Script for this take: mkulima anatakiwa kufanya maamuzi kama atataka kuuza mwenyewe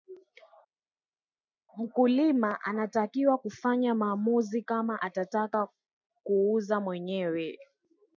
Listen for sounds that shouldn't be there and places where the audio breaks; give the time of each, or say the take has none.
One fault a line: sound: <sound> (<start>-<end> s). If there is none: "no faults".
no faults